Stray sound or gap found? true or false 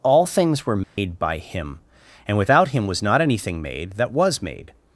true